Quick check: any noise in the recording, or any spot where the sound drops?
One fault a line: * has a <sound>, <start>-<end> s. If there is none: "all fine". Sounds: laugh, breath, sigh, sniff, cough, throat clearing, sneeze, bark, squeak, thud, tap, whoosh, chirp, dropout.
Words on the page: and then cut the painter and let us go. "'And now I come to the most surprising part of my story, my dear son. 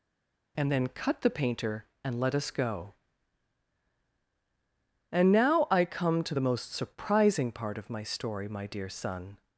all fine